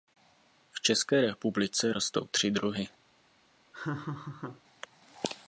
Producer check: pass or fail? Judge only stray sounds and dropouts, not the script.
fail